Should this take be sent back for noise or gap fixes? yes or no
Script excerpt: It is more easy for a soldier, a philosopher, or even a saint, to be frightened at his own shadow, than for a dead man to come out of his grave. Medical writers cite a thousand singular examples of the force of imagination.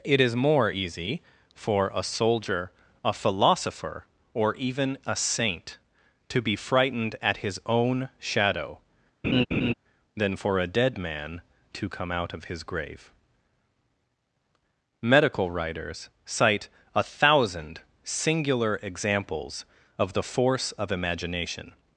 yes